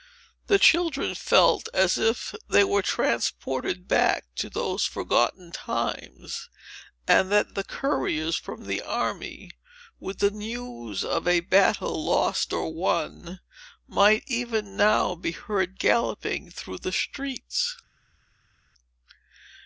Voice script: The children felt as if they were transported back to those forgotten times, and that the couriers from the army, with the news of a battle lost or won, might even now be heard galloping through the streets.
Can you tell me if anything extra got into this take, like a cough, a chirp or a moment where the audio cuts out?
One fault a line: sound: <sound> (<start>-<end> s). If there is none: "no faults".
no faults